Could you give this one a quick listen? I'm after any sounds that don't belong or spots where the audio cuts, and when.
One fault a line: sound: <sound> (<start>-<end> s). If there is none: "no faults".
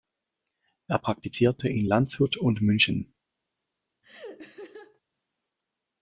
sound: laugh (4.0-5.0 s)